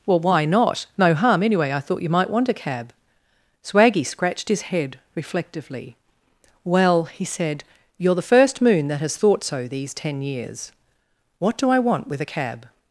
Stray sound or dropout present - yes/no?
no